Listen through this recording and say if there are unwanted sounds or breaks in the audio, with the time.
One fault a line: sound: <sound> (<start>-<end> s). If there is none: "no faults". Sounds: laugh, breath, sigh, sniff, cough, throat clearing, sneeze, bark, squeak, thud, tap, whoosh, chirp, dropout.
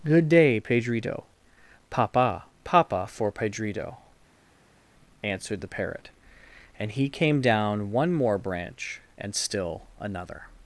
no faults